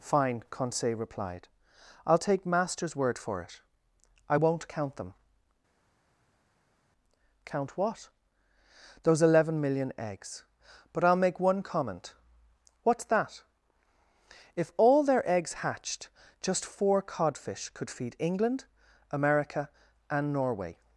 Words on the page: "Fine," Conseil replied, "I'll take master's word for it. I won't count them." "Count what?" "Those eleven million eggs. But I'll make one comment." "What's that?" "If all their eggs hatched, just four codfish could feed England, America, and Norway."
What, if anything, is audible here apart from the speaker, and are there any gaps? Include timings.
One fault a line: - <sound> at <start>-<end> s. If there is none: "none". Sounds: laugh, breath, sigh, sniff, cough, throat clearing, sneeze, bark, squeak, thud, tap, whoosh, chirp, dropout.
none